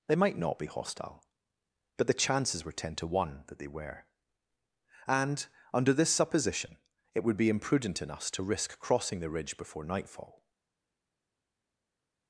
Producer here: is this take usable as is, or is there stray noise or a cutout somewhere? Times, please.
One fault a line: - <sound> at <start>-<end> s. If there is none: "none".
none